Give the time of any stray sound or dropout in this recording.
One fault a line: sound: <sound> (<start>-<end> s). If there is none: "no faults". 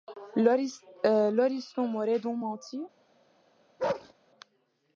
sound: bark (3.8-4.1 s)